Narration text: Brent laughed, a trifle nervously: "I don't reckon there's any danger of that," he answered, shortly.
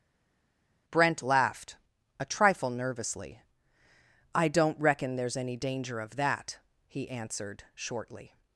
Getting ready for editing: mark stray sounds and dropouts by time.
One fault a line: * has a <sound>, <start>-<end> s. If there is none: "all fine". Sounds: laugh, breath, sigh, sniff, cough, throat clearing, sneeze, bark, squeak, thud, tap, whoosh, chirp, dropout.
all fine